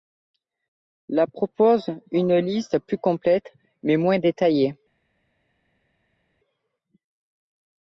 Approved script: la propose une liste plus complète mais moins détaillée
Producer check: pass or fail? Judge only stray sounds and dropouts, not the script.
pass